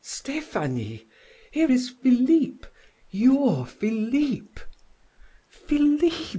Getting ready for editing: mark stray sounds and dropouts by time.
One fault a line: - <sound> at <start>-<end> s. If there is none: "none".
none